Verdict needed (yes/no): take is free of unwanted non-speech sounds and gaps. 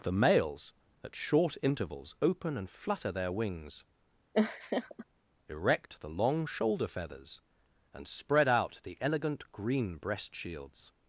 no